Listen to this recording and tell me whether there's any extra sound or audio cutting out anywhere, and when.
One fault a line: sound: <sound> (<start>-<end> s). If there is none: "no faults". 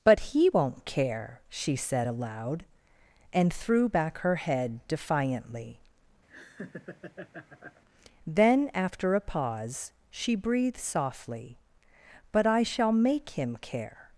sound: laugh (6.3-7.8 s)